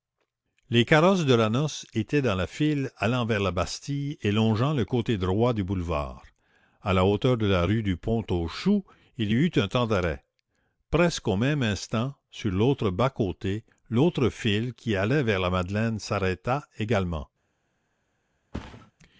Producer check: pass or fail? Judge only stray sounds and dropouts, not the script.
fail